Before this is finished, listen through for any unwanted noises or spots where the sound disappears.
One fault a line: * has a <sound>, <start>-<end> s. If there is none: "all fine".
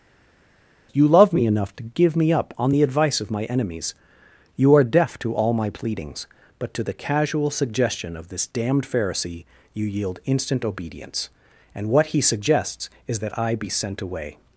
all fine